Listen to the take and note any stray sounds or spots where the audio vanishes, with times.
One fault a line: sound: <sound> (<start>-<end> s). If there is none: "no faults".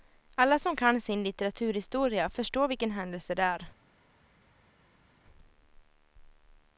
no faults